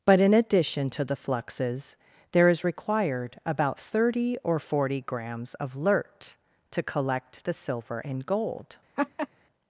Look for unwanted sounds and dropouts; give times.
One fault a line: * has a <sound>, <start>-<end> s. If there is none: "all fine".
* has a laugh, 9.0-9.3 s